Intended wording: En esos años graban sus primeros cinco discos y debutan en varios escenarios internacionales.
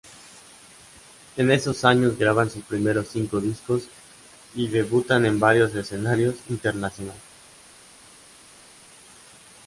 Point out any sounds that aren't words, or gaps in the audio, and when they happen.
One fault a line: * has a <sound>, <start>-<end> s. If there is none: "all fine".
all fine